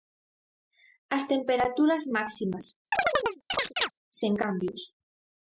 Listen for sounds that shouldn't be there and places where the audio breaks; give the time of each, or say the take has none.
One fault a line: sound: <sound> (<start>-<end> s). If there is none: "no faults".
sound: chirp (2.9-3.9 s)